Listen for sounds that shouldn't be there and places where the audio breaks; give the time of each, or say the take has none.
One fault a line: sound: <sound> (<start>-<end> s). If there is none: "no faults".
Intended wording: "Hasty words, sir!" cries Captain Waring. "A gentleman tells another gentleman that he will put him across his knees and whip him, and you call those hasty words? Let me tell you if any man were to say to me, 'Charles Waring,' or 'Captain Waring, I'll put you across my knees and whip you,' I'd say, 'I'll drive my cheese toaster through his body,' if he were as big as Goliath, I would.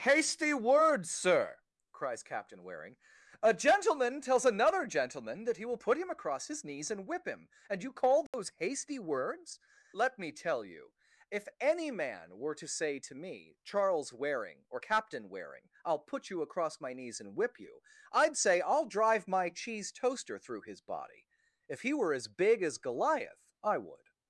sound: dropout (8.3-8.3 s)